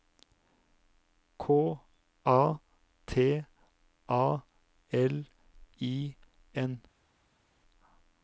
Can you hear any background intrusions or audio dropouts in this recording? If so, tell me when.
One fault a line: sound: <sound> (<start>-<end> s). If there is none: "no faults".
no faults